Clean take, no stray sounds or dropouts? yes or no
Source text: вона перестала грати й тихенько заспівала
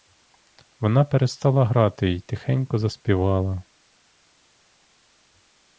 yes